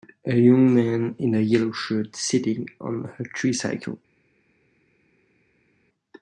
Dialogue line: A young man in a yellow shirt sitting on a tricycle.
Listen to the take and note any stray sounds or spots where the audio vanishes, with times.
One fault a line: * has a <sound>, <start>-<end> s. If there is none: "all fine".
all fine